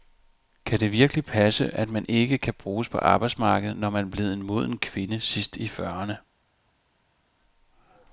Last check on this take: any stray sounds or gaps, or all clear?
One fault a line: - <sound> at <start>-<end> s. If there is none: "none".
none